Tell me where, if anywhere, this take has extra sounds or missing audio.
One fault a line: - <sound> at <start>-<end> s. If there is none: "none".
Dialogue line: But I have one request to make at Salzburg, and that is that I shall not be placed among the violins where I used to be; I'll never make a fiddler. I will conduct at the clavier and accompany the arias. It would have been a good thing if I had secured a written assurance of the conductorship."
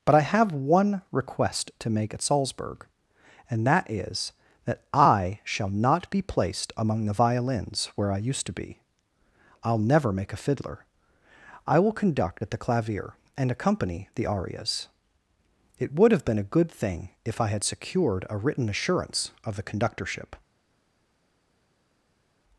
none